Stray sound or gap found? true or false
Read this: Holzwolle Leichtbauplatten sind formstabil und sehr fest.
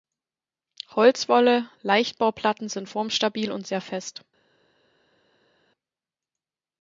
false